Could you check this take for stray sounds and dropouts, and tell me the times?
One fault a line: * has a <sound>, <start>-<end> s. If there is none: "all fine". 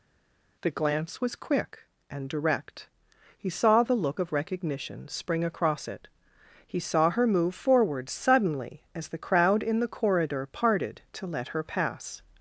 all fine